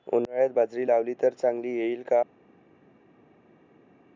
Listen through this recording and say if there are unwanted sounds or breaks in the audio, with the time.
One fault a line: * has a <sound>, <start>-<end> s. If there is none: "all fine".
all fine